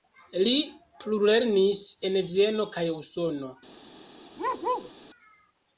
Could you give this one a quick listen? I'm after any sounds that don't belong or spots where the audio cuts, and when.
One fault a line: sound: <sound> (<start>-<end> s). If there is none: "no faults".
sound: bark (4.4-4.9 s)